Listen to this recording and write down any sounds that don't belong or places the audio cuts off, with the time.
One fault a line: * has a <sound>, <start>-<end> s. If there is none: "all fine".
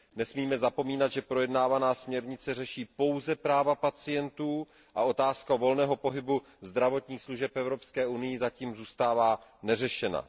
all fine